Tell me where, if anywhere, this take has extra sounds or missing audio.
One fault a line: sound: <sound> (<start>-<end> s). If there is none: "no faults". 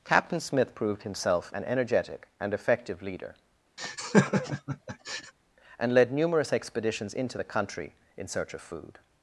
sound: laugh (3.8-5.3 s)